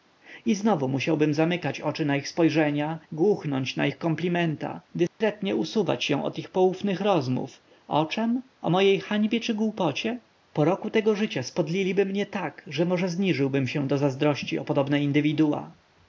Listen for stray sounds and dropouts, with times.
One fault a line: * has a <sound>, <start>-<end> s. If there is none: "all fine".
* has a dropout, 5.1-5.2 s